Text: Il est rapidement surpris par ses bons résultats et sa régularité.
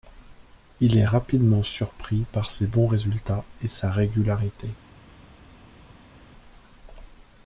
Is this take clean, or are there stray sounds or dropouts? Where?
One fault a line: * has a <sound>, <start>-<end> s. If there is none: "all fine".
all fine